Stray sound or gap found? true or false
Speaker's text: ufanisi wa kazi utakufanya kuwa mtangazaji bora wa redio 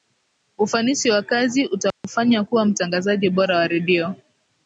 true